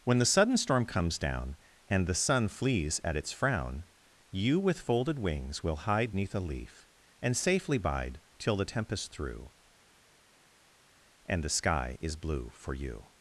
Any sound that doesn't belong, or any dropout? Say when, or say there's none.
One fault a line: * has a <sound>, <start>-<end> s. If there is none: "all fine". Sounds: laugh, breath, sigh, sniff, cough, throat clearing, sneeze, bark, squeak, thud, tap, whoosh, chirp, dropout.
all fine